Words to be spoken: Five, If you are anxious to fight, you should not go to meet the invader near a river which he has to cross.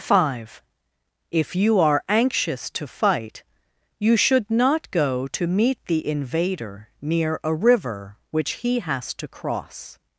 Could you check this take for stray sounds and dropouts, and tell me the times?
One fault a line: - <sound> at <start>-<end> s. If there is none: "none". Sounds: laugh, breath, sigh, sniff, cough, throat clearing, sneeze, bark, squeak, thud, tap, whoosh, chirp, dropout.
none